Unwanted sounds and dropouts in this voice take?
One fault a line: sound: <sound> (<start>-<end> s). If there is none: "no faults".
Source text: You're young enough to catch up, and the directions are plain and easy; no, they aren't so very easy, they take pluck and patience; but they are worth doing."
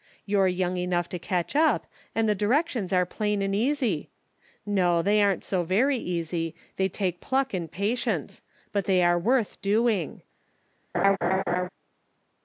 sound: laugh (10.9-11.7 s)